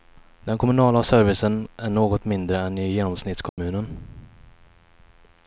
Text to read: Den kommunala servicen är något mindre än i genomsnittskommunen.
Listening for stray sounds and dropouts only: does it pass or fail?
fail